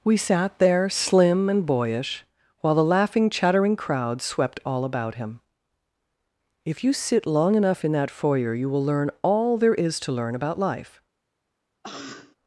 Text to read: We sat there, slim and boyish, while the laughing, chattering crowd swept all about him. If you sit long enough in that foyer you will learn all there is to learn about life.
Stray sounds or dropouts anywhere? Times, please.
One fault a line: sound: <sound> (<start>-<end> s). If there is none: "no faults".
sound: cough (11.8-12.4 s)